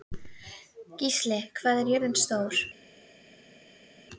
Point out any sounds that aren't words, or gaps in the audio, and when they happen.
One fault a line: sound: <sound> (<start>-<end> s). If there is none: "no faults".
no faults